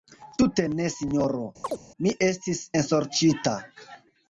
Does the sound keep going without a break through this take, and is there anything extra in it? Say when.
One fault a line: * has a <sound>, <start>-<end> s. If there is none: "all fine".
* has a chirp, 1.6-1.8 s